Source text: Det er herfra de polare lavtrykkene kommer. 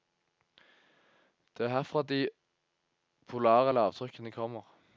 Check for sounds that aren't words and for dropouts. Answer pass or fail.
pass